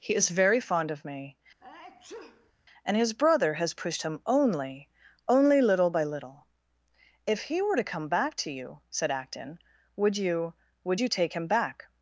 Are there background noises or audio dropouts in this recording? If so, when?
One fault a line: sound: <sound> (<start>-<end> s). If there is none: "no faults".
sound: sneeze (1.6-2.5 s)